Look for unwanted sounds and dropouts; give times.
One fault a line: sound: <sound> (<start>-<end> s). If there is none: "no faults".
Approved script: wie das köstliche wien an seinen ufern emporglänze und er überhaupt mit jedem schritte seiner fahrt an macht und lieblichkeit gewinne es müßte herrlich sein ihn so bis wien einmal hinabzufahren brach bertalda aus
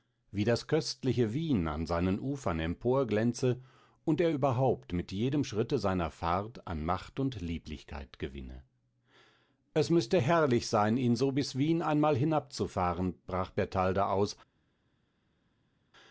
no faults